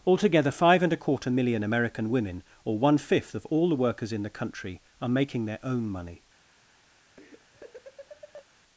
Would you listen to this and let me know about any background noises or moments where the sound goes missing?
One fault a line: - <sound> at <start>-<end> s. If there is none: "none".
- laugh at 7.2-8.5 s